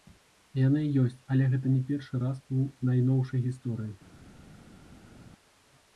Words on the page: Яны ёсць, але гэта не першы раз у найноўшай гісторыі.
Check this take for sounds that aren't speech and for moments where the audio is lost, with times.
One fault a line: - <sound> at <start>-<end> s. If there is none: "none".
none